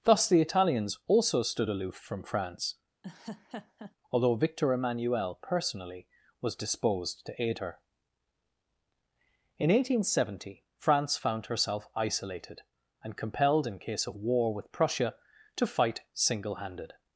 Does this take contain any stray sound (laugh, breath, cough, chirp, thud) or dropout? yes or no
yes